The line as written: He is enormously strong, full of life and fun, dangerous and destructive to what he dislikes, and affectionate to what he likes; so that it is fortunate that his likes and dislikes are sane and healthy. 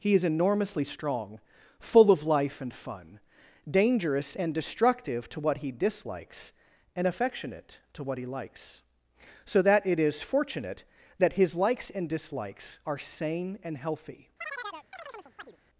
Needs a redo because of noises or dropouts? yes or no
yes